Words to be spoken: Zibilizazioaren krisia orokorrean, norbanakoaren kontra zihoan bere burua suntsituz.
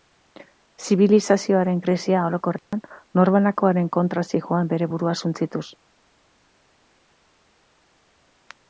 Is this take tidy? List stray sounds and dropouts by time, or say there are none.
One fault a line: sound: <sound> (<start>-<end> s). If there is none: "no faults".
sound: dropout (2.6-2.7 s)